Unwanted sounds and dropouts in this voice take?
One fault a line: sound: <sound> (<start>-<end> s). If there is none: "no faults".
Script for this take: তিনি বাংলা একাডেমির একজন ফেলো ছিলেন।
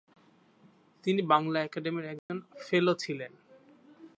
sound: dropout (2.2-2.3 s)